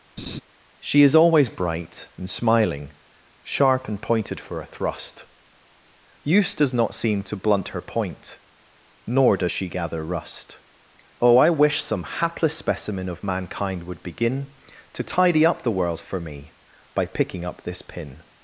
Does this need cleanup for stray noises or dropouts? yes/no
yes